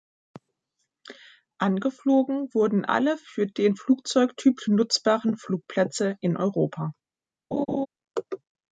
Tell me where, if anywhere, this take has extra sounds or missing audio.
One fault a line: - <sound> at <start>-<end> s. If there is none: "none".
- laugh at 7.5-7.9 s